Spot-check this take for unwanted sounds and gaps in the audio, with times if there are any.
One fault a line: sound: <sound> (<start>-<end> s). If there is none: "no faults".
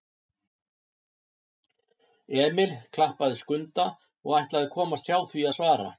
no faults